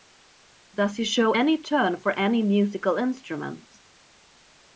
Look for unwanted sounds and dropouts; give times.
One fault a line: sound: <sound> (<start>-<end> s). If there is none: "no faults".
no faults